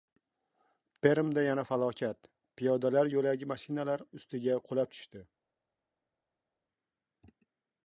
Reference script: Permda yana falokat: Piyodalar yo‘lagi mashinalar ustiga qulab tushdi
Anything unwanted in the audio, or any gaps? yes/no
no